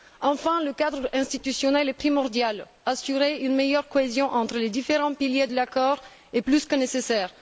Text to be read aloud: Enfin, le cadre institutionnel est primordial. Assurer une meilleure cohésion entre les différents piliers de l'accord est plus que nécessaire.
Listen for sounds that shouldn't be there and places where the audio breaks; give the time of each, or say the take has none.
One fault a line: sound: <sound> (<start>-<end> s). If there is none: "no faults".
no faults